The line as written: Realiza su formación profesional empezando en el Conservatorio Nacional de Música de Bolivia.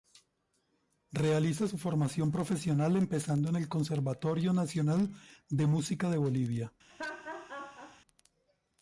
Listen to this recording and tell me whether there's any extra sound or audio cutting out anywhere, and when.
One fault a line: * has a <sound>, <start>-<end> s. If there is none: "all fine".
* has a laugh, 6.9-8.0 s